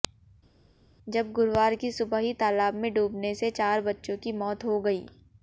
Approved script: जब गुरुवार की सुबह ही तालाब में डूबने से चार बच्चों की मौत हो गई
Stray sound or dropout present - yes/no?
no